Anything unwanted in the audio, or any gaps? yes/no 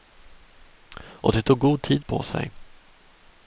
no